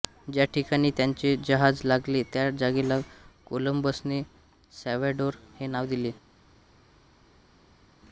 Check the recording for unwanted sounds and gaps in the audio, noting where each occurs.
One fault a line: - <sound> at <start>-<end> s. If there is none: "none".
none